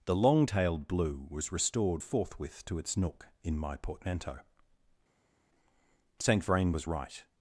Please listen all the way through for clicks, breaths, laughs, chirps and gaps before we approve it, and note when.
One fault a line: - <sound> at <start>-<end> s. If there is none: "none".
none